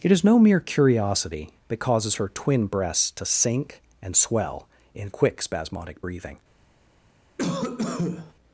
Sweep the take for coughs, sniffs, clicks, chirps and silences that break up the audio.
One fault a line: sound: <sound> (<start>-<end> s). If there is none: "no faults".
sound: cough (7.4-8.3 s)